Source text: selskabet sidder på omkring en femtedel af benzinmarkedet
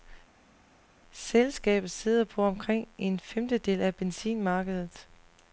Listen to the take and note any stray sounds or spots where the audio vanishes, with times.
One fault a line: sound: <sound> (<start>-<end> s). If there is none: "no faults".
no faults